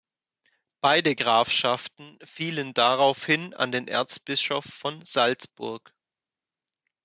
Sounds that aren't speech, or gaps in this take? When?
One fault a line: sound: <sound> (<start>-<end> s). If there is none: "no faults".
no faults